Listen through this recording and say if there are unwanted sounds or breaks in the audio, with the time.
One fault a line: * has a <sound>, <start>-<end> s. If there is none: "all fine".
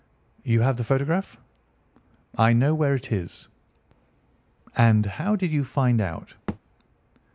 * has a thud, 6.5-6.6 s